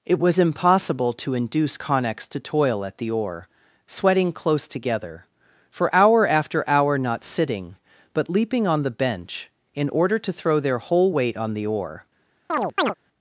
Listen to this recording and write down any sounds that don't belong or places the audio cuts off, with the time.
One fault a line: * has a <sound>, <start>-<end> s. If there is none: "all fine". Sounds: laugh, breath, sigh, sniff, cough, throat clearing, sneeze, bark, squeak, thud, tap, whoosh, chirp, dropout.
* has a chirp, 12.5-12.9 s